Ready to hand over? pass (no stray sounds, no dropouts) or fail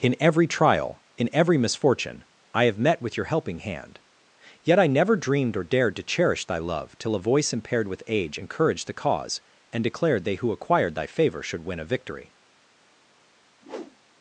fail